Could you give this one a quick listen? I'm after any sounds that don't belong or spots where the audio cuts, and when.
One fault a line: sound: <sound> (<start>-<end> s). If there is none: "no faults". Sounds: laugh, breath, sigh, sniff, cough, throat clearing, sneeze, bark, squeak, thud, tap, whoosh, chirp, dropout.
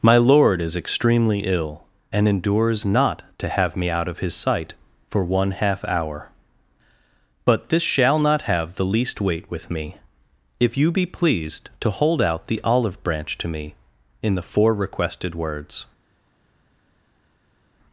no faults